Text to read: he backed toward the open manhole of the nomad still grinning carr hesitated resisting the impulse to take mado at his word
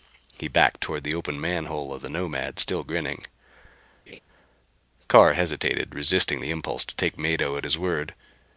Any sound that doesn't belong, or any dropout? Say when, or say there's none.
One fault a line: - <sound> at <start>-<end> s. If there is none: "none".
- laugh at 4.1-4.2 s